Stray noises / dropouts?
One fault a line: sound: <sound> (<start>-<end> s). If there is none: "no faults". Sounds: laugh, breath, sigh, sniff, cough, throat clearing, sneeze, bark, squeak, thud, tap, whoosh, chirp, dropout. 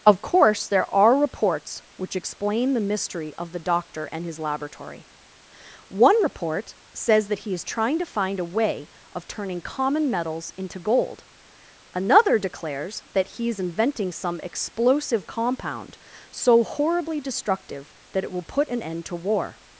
no faults